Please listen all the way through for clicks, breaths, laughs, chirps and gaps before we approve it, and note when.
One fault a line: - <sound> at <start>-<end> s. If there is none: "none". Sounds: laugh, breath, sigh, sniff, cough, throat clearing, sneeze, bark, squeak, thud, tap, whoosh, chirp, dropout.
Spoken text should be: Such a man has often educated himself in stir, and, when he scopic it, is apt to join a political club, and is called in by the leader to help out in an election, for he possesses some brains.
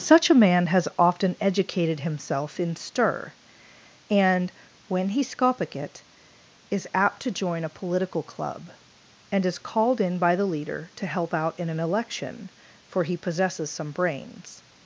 none